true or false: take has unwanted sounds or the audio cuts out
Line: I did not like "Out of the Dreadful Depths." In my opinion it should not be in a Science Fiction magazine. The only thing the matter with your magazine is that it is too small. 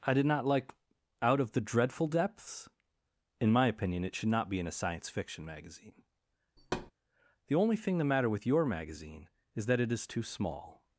true